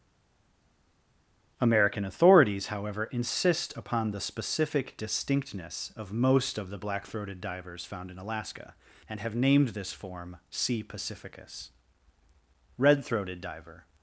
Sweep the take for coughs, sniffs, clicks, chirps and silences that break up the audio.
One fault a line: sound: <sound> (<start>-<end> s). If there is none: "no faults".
no faults